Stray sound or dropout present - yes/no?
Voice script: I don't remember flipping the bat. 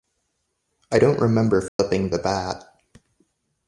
yes